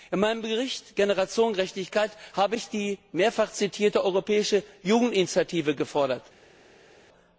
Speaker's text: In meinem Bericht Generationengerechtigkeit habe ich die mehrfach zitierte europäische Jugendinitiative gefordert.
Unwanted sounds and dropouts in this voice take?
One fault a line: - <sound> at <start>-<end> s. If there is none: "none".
none